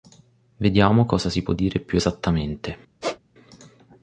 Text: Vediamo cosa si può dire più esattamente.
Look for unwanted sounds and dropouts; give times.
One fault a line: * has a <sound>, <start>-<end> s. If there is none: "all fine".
* has a squeak, 3.0-3.2 s